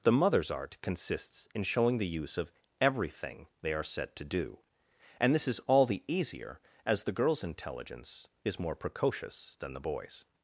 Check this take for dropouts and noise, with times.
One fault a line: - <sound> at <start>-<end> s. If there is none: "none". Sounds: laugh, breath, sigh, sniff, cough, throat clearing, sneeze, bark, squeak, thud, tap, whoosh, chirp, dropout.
none